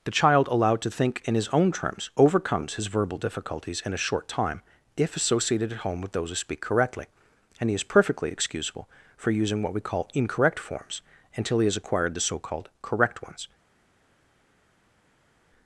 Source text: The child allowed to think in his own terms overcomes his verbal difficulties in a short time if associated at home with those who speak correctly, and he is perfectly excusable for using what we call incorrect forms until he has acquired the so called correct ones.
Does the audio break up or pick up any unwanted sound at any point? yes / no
no